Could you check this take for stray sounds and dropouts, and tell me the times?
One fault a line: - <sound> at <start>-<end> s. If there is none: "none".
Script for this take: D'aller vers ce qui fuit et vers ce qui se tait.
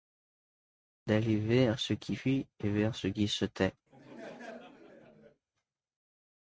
- laugh at 3.9-5.4 s